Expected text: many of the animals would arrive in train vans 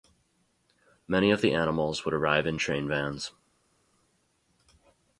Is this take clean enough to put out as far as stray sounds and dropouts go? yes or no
yes